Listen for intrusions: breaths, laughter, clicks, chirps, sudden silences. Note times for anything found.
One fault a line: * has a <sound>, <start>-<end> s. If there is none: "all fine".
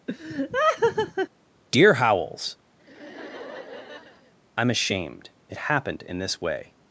* has a laugh, 0.1-1.3 s
* has a laugh, 2.8-4.3 s